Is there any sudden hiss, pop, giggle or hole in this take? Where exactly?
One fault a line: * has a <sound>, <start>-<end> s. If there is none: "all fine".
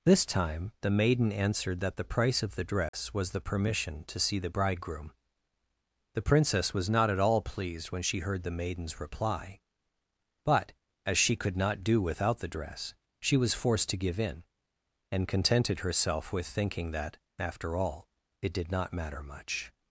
* has a dropout, 2.9-2.9 s